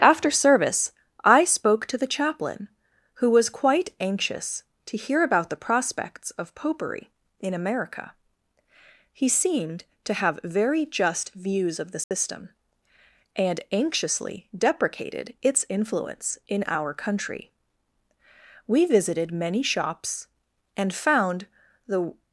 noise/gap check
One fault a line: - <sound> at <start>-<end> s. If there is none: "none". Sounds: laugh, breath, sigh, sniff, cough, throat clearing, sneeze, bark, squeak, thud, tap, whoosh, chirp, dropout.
- dropout at 12.0-12.1 s